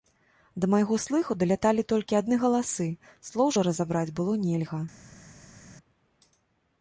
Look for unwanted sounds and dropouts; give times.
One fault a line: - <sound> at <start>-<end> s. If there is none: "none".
none